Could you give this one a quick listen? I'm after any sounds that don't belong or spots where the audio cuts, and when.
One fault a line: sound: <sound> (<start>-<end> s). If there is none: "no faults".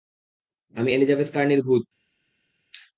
no faults